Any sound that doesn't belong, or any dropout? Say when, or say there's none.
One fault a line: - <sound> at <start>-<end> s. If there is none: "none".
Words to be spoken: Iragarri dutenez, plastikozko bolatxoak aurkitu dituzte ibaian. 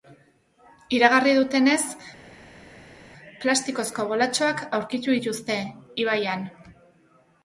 none